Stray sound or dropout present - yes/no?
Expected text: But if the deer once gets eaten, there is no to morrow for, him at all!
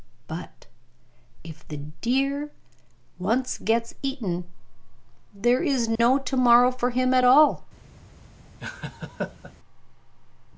yes